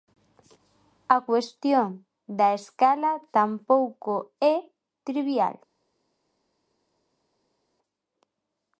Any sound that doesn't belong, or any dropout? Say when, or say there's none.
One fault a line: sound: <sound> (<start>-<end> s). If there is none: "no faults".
no faults